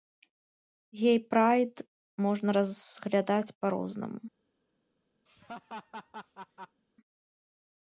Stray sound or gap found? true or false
true